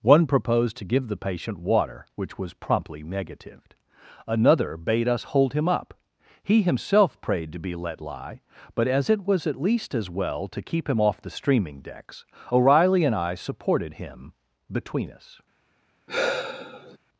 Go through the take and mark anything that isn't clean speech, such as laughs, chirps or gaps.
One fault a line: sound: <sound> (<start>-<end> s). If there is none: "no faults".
sound: sigh (16.1-17.0 s)